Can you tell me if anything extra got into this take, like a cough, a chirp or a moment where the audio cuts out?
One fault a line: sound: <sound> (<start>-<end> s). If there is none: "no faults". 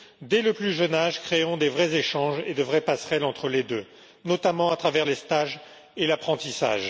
no faults